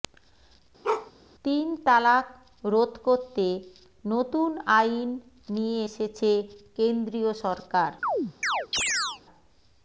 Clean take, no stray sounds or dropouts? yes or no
no